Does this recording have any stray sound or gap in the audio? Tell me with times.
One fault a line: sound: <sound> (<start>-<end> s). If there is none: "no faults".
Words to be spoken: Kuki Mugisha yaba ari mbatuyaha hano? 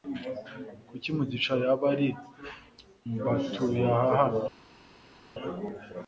no faults